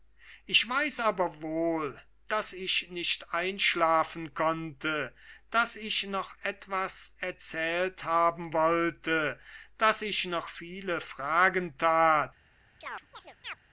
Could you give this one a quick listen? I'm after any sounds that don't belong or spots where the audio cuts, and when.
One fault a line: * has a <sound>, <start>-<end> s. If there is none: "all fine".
* has a chirp, 12.8-13.6 s